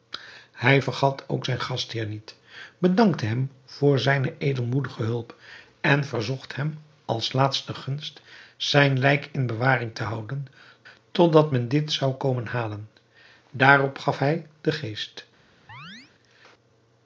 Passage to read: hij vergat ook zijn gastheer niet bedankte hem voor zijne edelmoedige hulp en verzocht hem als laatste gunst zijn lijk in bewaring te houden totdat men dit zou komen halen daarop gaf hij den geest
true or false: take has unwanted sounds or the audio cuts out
true